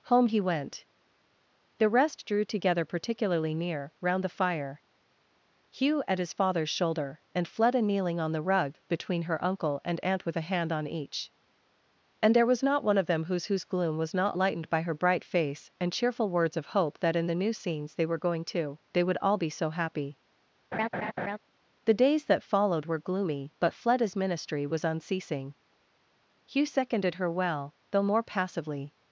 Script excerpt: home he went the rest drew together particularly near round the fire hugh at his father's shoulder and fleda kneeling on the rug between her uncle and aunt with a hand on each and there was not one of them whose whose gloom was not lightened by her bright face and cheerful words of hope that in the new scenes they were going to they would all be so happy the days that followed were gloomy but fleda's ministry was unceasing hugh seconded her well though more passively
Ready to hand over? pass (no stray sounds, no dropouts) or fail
fail